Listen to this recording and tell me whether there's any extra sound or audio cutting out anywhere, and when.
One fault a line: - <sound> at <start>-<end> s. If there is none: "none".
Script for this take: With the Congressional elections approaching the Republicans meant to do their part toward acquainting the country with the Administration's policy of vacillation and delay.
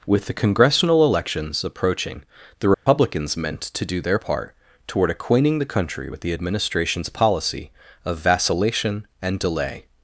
- dropout at 2.7-2.9 s